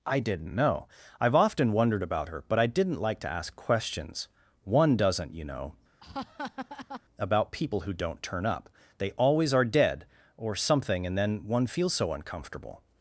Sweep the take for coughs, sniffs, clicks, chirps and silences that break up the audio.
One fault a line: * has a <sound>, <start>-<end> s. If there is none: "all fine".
* has a laugh, 6.0-7.0 s